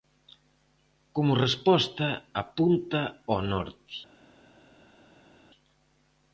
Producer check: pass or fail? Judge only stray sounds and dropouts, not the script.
pass